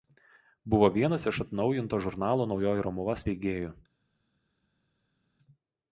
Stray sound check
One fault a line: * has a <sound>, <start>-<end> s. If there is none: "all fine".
all fine